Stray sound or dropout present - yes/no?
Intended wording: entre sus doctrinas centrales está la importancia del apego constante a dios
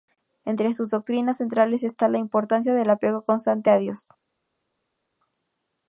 no